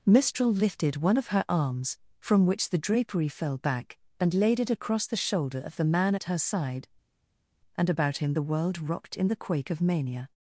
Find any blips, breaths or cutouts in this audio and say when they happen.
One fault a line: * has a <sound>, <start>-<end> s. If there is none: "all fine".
all fine